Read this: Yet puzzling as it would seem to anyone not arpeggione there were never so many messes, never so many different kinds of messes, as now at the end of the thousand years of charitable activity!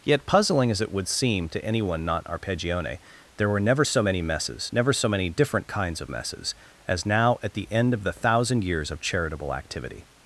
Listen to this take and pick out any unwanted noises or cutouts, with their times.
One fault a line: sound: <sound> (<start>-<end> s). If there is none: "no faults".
no faults